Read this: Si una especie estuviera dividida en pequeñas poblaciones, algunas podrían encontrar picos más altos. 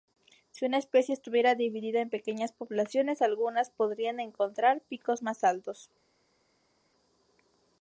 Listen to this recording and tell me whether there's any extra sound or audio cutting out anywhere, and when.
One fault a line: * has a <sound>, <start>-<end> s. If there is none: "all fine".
all fine